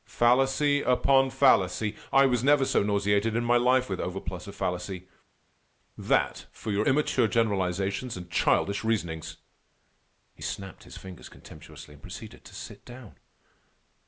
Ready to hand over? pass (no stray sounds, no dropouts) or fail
pass